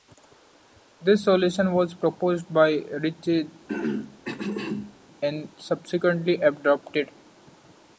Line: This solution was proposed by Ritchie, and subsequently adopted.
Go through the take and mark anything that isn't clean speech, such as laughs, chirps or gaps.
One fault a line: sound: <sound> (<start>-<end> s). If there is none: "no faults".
sound: throat clearing (3.7-5.0 s)